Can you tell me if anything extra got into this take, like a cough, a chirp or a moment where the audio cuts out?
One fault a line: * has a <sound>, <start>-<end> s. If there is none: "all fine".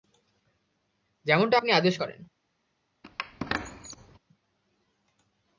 * has a squeak, 3.0-4.2 s